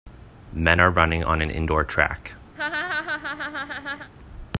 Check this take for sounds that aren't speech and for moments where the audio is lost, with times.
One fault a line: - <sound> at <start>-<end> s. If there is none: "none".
- laugh at 2.6-4.1 s